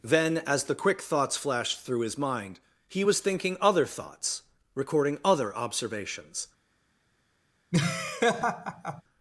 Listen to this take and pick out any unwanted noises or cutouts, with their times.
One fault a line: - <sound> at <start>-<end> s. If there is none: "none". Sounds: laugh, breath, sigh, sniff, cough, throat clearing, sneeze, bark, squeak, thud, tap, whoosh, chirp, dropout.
- laugh at 7.7-9.0 s